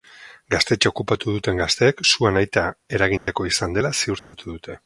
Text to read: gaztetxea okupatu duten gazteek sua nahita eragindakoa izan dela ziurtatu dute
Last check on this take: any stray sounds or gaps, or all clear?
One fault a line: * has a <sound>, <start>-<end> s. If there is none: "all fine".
* has a dropout, 3.2-3.3 s
* has a dropout, 4.2-4.3 s